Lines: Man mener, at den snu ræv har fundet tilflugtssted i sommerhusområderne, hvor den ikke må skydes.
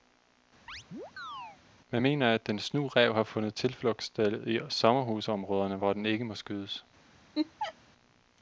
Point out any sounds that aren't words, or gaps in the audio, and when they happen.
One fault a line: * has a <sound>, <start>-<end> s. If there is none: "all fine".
* has a chirp, 0.7-1.6 s
* has a laugh, 7.3-7.7 s